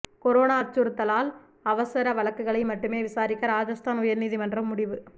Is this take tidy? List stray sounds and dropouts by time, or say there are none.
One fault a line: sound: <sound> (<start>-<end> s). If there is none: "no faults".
no faults